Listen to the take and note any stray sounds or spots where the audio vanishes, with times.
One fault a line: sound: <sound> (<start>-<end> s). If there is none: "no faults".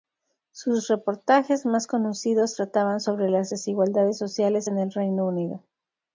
no faults